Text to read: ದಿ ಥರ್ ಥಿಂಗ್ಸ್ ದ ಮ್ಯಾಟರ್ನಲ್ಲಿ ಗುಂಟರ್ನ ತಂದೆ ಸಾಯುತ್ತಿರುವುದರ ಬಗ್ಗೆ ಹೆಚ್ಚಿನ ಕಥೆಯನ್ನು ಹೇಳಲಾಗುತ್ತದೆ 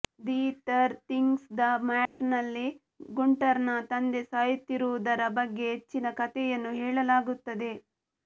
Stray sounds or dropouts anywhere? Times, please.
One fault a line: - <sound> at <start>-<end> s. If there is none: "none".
- dropout at 2.1-2.2 s